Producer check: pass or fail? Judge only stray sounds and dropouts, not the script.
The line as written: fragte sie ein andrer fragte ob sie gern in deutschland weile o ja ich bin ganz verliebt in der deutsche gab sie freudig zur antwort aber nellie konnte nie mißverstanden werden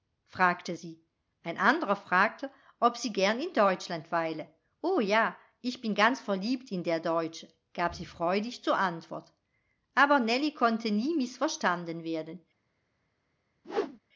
fail